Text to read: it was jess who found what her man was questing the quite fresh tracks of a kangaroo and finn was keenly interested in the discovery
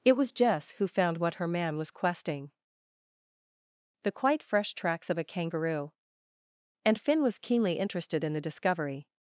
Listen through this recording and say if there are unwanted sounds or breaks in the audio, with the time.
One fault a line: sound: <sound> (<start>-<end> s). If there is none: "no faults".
no faults